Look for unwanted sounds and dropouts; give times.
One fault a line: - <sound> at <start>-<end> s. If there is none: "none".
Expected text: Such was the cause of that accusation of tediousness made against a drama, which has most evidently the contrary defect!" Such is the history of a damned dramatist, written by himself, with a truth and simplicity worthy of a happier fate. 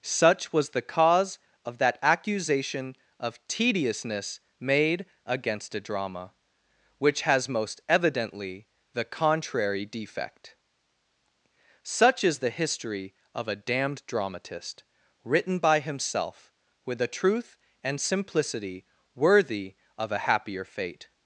none